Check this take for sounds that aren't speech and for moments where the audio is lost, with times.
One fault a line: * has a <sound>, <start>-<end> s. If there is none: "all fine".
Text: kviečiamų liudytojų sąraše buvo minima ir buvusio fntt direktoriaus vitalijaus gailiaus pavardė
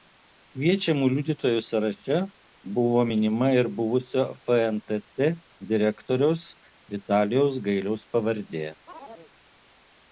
* has a chirp, 8.9-9.3 s